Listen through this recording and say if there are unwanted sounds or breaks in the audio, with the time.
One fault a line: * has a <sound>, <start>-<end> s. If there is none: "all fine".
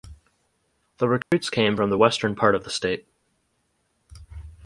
* has a dropout, 1.2-1.3 s